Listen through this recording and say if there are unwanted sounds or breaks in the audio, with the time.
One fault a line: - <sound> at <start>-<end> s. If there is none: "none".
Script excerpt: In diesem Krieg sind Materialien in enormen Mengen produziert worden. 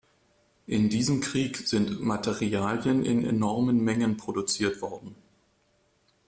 none